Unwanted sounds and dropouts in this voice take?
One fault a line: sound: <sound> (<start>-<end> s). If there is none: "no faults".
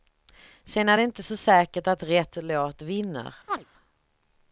sound: chirp (3.5-3.7 s)